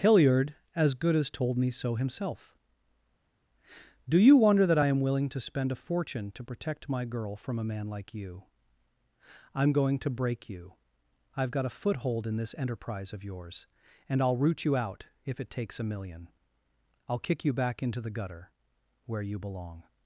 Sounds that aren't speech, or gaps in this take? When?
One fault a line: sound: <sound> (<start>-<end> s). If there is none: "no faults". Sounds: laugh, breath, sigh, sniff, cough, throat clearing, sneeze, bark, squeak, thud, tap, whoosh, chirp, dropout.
no faults